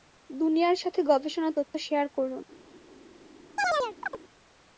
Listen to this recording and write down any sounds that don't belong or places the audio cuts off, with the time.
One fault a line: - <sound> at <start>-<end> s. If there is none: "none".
- chirp at 3.6-4.2 s